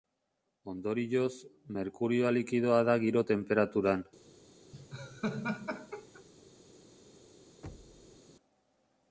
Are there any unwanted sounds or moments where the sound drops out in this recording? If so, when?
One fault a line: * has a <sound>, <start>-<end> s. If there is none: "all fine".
* has a laugh, 4.7-6.2 s
* has a thud, 7.6-8.2 s